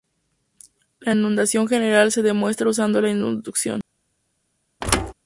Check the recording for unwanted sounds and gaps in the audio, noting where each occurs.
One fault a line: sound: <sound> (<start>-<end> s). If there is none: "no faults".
sound: thud (4.8-5.1 s)